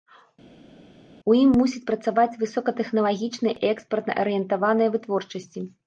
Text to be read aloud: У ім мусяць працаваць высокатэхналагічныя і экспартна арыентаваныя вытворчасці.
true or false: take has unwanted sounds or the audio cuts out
false